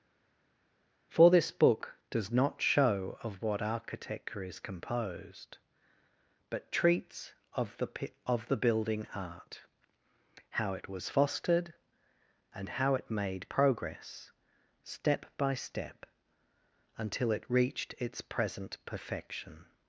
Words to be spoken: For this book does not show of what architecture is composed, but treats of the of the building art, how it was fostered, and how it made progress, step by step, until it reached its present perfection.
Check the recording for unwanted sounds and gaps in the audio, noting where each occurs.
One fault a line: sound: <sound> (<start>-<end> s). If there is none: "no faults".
no faults